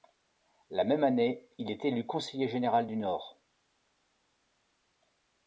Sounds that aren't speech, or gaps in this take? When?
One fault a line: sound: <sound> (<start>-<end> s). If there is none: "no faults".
no faults